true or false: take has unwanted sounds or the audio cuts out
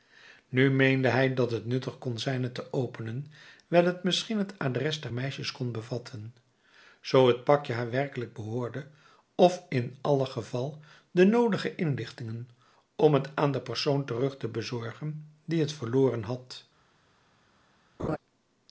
true